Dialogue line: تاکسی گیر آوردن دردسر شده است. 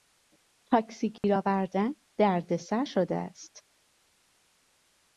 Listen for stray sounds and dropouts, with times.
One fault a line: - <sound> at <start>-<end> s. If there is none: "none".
- dropout at 1.2-1.2 s